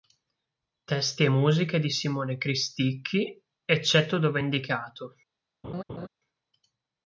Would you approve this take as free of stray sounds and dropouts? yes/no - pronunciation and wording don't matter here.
no